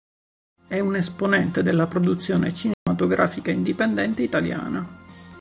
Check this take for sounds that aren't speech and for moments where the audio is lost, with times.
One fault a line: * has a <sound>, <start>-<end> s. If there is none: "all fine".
* has a dropout, 2.7-2.9 s